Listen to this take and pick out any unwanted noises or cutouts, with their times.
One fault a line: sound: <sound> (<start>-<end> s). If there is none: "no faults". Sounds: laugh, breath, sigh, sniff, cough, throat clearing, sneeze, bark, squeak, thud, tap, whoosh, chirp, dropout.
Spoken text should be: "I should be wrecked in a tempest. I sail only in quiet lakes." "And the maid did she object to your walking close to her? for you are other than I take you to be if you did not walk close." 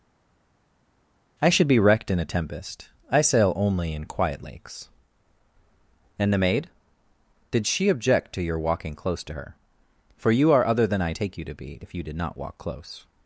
no faults